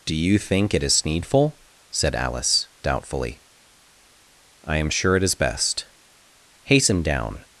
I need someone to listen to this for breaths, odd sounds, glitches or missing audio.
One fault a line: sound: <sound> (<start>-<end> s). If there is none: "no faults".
no faults